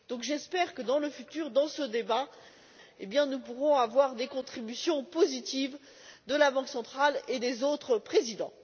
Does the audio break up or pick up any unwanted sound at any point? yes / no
no